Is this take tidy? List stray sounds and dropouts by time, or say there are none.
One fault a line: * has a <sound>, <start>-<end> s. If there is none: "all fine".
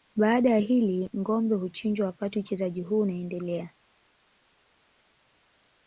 all fine